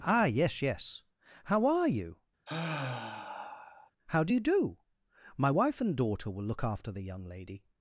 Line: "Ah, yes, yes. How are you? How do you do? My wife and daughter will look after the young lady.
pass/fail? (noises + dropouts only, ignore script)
fail